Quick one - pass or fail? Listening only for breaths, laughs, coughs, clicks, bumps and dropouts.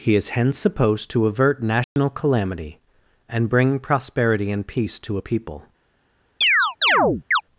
fail